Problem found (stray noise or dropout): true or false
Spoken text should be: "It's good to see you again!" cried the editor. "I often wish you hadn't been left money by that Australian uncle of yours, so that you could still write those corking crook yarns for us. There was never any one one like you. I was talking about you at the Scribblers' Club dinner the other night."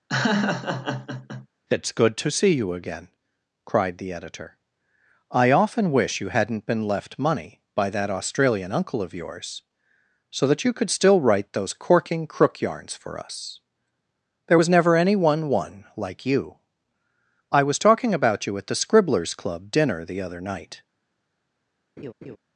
true